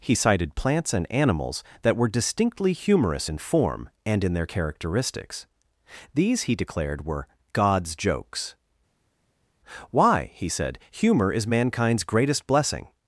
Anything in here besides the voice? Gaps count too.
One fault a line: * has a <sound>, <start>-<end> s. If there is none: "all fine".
all fine